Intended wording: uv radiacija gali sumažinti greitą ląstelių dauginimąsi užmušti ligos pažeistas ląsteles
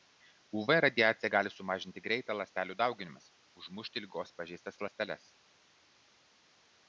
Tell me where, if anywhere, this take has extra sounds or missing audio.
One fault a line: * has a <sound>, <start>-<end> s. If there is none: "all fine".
all fine